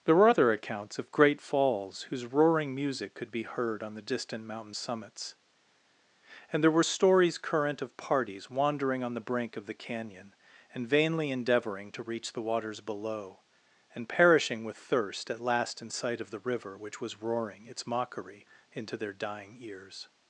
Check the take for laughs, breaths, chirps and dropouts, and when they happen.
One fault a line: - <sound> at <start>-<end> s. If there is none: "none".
none